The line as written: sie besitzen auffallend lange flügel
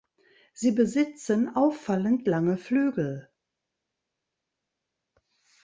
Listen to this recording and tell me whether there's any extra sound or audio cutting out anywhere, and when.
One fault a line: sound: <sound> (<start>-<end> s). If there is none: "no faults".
no faults